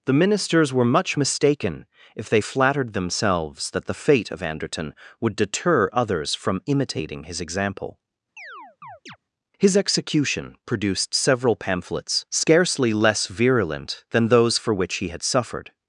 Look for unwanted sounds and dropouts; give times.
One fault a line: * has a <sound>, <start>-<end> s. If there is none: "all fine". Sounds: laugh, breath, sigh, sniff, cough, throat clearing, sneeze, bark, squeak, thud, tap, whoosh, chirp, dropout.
* has a chirp, 8.4-9.2 s